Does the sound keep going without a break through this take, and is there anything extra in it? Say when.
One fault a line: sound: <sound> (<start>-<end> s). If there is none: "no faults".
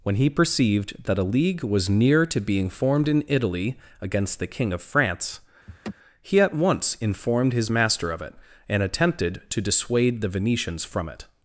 sound: laugh (5.7-5.9 s)